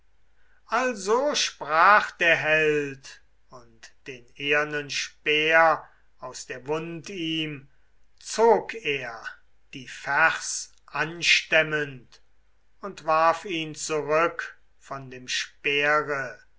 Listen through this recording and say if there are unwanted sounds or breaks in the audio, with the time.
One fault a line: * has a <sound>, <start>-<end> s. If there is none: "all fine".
all fine